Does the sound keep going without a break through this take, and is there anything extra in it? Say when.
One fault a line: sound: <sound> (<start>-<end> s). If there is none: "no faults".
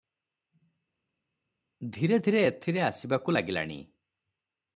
no faults